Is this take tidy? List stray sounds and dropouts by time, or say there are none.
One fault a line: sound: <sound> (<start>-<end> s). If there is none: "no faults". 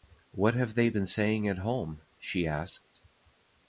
no faults